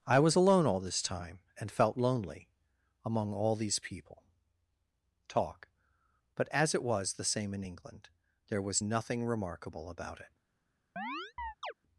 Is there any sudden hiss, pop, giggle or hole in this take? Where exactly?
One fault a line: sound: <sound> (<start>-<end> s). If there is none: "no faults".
sound: chirp (11.0-11.7 s)